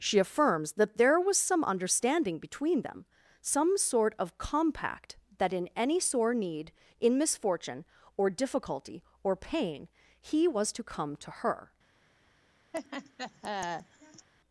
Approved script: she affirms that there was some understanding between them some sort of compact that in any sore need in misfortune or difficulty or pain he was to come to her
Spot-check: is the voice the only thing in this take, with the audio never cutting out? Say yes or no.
no